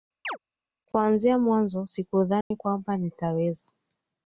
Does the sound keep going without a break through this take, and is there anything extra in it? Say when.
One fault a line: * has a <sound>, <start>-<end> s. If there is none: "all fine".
* has a chirp, 0.2-0.4 s
* has a dropout, 2.4-2.5 s